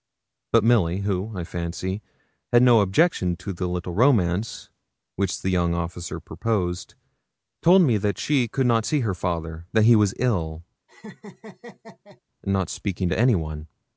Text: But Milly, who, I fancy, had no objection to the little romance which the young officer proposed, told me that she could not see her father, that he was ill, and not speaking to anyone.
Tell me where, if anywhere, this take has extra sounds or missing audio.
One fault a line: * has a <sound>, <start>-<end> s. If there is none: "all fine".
* has a laugh, 10.9-12.2 s